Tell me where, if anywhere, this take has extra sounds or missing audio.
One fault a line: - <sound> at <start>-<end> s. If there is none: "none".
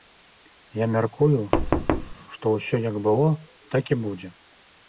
- thud at 1.5-2.2 s